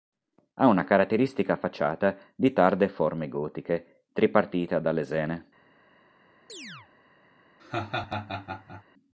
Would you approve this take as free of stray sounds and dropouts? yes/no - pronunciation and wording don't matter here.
no